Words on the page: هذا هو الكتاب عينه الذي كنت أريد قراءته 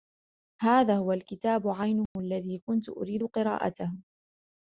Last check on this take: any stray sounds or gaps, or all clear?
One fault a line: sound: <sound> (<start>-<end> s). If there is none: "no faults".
sound: dropout (2.1-2.2 s)